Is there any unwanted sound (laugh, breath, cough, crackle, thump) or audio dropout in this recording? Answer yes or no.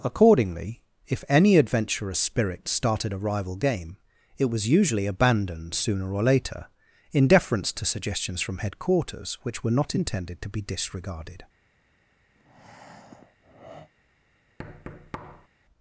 yes